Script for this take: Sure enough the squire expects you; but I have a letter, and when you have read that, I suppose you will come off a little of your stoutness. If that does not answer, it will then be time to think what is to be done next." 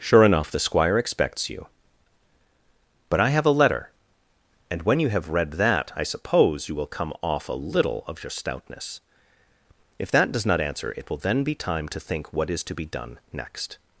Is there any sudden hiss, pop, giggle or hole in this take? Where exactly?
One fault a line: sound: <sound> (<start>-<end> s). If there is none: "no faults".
no faults